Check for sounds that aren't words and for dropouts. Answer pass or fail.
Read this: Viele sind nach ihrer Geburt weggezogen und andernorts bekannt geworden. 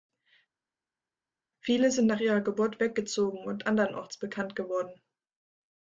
pass